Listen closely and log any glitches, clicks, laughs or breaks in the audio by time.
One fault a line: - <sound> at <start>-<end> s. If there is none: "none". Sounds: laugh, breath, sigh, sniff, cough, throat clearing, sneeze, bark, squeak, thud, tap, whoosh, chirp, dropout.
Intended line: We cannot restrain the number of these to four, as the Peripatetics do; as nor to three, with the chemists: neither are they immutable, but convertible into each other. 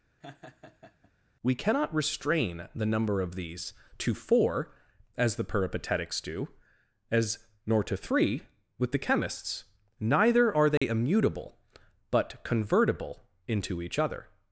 - laugh at 0.2-1.1 s
- dropout at 10.8-10.8 s